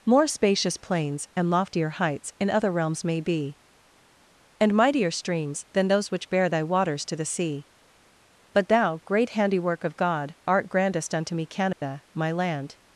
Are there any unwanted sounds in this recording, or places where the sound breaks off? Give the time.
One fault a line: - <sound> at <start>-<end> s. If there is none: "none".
- dropout at 11.7-11.8 s